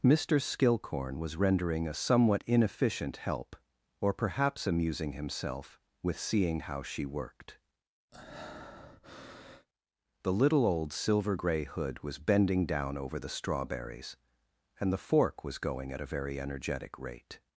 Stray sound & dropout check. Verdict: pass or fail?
fail